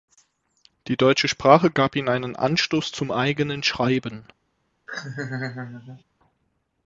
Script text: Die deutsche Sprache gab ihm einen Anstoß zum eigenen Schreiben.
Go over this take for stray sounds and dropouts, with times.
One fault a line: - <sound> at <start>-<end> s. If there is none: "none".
- laugh at 4.9-6.0 s